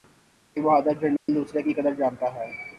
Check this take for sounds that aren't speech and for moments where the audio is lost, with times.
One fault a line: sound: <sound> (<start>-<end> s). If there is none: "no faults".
sound: dropout (1.2-1.3 s)